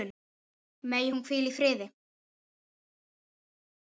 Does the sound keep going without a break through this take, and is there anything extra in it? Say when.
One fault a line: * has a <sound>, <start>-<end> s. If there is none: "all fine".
all fine